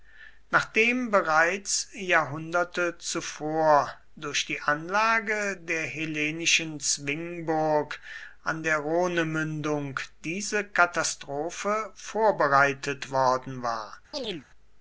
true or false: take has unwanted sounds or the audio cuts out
true